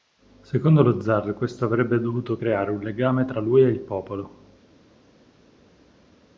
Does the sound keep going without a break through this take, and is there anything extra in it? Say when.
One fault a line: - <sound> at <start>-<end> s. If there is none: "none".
none